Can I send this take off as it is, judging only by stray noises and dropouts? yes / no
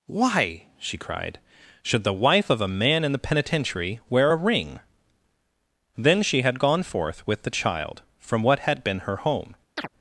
no